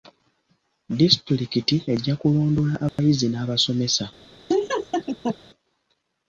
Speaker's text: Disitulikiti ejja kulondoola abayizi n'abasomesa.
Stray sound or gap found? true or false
true